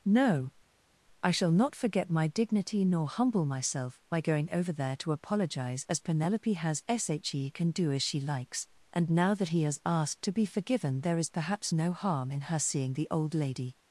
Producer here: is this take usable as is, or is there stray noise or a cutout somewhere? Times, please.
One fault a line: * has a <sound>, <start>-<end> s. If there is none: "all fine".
all fine